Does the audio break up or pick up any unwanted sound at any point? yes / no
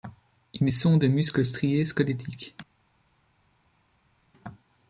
no